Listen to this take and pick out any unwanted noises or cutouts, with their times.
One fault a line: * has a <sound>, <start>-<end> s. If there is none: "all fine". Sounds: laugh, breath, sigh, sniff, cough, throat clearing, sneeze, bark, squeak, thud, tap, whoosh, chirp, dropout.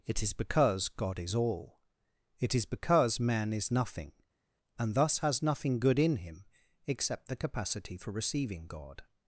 all fine